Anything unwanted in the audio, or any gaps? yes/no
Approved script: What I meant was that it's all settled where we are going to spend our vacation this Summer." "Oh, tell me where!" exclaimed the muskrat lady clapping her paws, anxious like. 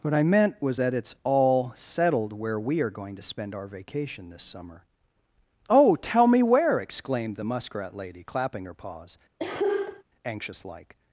yes